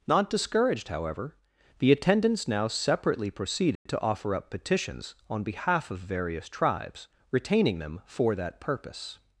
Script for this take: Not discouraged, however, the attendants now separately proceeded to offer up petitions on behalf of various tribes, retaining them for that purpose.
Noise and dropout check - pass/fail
fail